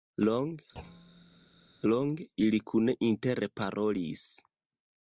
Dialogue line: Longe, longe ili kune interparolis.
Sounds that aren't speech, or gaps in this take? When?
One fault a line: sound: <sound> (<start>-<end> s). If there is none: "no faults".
sound: thud (0.7-1.7 s)